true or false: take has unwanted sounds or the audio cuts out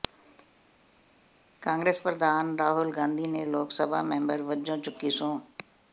false